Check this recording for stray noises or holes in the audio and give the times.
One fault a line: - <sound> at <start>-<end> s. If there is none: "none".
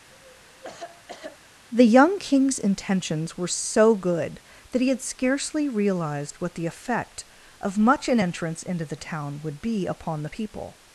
- cough at 0.1-1.4 s